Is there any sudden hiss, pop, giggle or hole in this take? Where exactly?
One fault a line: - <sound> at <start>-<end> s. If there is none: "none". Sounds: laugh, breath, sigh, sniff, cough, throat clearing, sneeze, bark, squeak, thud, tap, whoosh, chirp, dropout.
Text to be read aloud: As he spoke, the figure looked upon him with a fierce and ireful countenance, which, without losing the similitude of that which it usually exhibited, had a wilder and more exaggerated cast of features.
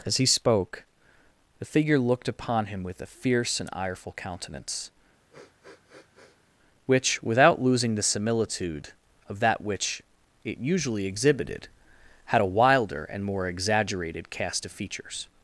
- sniff at 5.3-6.5 s